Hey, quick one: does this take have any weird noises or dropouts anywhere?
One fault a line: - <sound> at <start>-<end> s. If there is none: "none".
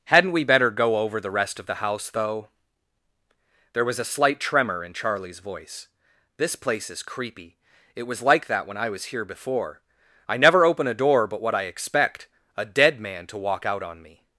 none